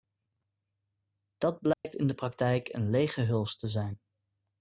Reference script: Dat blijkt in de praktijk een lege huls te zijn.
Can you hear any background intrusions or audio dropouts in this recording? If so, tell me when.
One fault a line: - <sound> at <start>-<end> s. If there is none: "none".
- dropout at 1.7-1.8 s